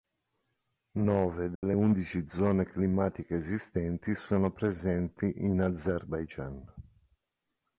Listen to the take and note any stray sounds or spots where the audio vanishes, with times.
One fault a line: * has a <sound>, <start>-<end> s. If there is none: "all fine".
* has a dropout, 1.6-1.6 s